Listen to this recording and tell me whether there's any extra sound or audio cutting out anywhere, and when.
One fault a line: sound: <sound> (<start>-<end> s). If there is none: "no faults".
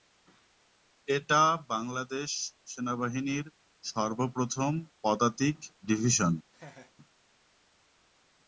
sound: laugh (6.5-6.9 s)